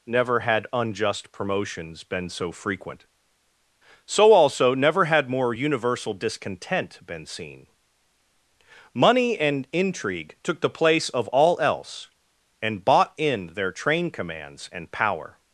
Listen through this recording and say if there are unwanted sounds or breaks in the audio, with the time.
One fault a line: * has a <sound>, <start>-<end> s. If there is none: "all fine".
all fine